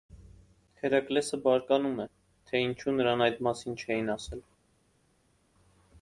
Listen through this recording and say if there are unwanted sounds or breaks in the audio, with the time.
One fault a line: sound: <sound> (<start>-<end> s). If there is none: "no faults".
no faults